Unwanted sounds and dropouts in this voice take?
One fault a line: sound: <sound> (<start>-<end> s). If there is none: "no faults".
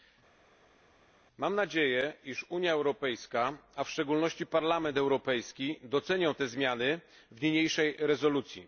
no faults